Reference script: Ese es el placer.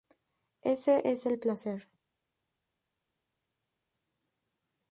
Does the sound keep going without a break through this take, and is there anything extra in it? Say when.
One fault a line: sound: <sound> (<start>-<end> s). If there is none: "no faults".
no faults